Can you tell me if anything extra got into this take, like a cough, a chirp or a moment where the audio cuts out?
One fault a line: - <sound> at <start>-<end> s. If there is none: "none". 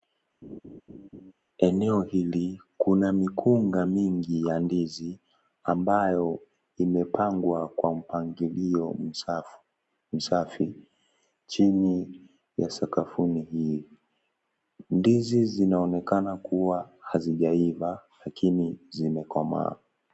- laugh at 0.4-1.3 s